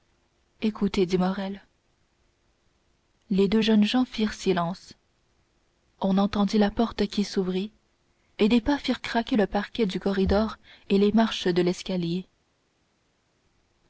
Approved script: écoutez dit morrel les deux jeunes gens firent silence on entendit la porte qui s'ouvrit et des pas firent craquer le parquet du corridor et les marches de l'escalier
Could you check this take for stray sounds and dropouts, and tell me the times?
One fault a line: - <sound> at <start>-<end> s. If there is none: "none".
none